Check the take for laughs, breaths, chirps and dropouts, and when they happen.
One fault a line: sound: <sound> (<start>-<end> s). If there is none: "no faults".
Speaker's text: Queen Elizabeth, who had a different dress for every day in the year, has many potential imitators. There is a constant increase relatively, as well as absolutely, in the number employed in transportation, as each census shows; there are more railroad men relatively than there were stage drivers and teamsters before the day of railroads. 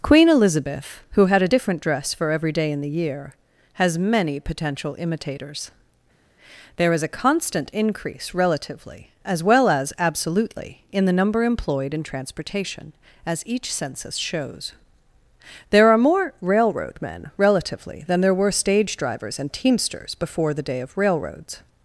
no faults